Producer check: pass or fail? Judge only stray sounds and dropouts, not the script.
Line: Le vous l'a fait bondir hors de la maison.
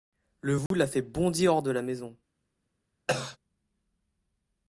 fail